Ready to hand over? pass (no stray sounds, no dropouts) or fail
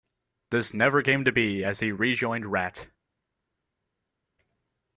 pass